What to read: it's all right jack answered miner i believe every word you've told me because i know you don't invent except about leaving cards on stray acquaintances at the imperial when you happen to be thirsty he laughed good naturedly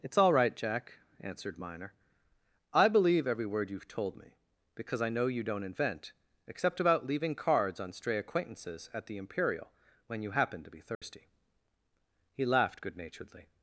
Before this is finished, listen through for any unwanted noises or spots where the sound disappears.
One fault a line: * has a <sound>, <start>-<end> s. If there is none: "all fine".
* has a dropout, 10.9-11.0 s